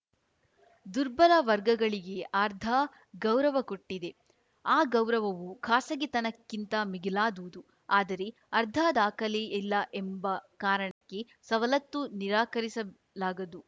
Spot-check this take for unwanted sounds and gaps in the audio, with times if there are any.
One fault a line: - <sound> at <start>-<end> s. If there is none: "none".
- dropout at 10.9-11.0 s